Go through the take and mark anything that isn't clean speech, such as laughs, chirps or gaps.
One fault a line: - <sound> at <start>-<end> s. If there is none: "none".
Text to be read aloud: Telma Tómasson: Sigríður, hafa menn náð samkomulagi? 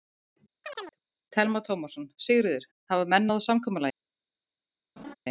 - chirp at 0.6-1.0 s
- laugh at 5.0-5.1 s